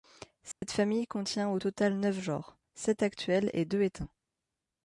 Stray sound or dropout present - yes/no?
yes